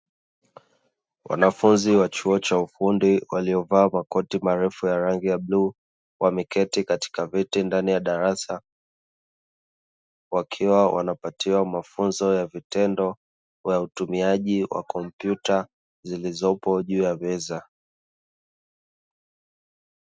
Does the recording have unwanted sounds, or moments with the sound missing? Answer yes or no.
no